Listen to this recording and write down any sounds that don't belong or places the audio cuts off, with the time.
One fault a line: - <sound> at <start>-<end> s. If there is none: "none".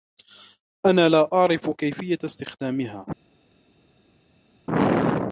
none